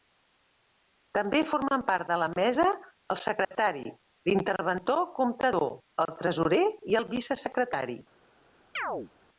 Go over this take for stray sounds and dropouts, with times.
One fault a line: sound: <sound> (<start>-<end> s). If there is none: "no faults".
sound: dropout (3.4-3.5 s)
sound: chirp (8.8-9.1 s)